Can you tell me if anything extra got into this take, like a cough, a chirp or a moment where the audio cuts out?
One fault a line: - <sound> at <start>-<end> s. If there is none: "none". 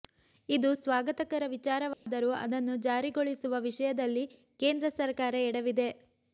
- dropout at 1.9-2.1 s